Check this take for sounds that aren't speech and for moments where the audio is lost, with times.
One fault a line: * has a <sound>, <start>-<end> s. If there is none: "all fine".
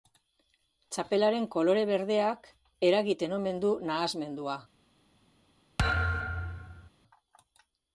* has a thud, 5.8-6.9 s